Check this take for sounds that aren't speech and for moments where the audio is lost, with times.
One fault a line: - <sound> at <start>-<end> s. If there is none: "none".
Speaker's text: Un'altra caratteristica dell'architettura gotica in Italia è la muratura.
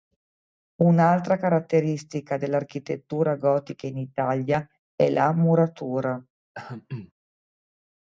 - throat clearing at 6.5-7.1 s